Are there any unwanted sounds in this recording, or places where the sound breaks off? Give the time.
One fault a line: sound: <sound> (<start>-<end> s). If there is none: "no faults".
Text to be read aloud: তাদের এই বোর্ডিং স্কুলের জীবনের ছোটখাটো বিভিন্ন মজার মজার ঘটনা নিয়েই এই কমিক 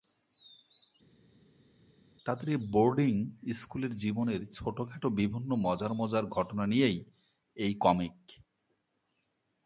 no faults